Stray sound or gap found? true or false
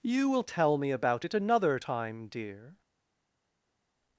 false